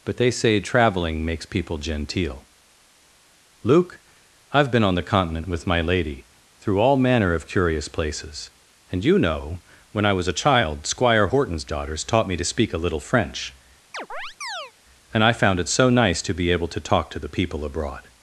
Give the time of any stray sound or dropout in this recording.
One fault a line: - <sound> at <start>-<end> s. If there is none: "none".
- chirp at 13.9-14.7 s